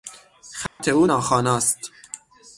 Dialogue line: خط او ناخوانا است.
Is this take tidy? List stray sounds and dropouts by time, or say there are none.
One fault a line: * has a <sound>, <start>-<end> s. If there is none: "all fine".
* has a dropout, 0.7-0.8 s